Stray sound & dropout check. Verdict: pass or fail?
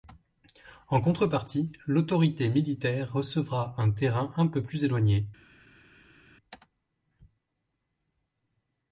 pass